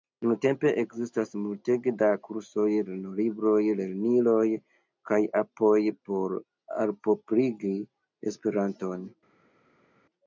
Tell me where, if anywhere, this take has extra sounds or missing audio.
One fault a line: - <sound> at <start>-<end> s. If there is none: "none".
none